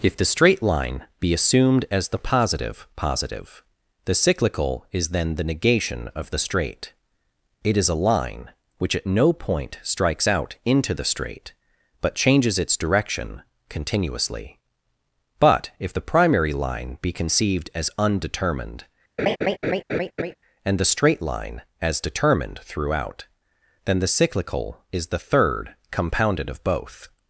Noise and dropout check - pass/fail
fail